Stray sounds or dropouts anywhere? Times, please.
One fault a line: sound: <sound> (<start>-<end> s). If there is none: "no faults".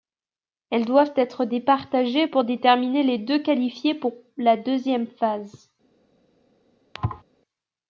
sound: thud (6.9-7.2 s)